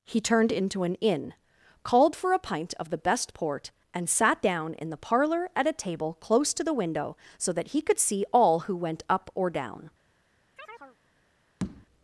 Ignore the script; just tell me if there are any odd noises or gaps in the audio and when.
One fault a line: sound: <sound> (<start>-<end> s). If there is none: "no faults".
sound: chirp (10.6-11.0 s)
sound: tap (11.6-11.9 s)